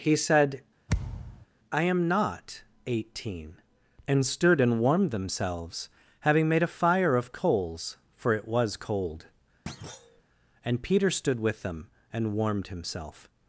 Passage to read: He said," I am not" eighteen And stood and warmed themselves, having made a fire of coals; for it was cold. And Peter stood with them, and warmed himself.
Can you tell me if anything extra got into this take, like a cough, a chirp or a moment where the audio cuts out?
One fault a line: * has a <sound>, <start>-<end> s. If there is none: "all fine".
* has a thud, 0.9-1.5 s
* has a thud, 9.7-10.2 s